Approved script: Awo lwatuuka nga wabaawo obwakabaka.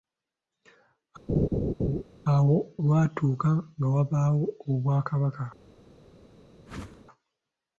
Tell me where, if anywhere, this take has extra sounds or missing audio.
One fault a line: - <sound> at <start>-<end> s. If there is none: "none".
- laugh at 1.3-2.0 s
- whoosh at 6.7-7.1 s